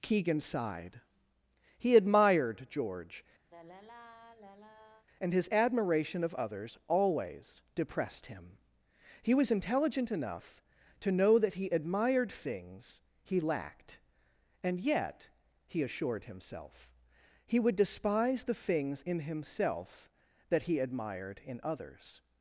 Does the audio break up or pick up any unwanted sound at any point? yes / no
yes